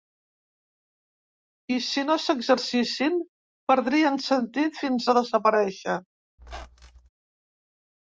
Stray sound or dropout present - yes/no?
yes